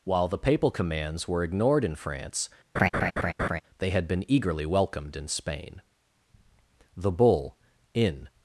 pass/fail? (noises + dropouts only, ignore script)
fail